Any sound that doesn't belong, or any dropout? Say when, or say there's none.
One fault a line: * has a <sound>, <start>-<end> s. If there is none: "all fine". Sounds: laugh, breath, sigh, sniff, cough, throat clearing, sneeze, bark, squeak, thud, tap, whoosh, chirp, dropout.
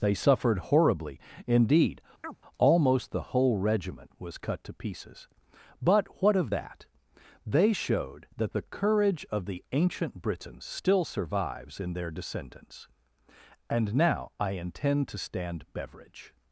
* has a chirp, 2.2-2.4 s